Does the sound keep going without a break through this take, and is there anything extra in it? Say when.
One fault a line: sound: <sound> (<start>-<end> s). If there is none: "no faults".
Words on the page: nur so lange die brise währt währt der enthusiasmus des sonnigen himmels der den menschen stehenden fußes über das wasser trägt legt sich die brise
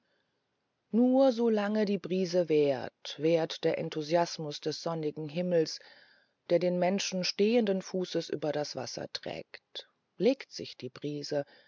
no faults